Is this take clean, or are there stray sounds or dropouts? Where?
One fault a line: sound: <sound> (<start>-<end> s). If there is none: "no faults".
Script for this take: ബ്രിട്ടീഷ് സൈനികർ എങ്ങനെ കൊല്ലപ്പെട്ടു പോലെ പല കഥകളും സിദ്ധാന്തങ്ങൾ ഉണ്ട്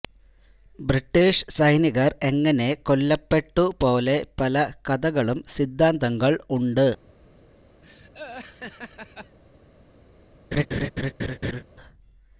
sound: laugh (7.8-9.4 s)
sound: laugh (10.5-11.6 s)